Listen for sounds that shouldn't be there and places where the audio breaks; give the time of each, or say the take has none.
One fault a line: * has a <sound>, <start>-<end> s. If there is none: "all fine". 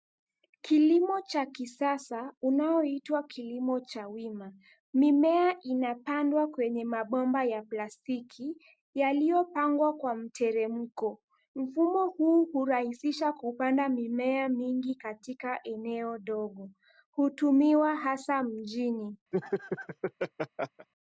* has a laugh, 19.3-20.9 s